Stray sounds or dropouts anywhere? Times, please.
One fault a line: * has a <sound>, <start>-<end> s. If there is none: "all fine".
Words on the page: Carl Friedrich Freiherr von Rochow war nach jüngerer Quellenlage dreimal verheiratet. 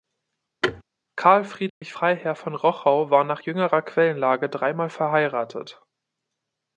* has a thud, 0.6-0.8 s
* has a dropout, 1.7-1.8 s